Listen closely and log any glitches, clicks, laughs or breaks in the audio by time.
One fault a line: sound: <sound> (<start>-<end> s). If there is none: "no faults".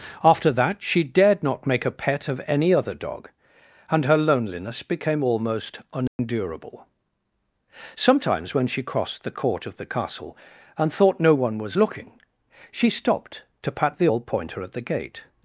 sound: dropout (6.1-6.2 s)